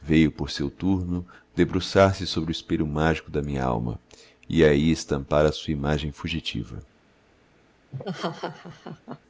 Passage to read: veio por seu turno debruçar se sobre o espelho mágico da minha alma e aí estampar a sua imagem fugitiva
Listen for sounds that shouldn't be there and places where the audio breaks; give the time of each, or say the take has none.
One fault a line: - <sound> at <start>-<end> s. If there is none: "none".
- laugh at 7.9-9.2 s